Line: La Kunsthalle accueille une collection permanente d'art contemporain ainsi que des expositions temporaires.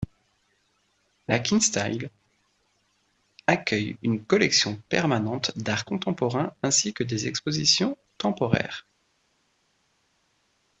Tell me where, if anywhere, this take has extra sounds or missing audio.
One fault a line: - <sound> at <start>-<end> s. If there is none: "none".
none